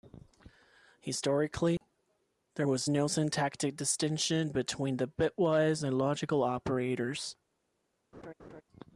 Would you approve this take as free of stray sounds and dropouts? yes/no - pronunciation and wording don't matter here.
no